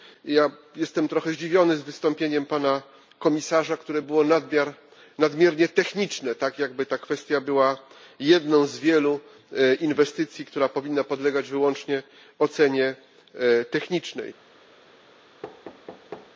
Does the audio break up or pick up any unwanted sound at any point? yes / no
yes